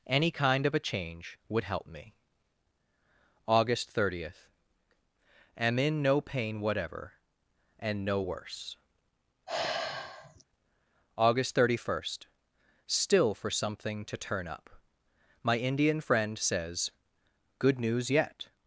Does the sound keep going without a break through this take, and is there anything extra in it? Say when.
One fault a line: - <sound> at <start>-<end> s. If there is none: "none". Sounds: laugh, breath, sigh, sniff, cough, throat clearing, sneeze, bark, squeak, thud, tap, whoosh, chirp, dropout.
- sigh at 9.5-10.4 s